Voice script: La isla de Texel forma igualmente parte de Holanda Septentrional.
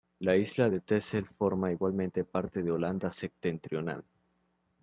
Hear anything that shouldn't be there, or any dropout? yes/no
no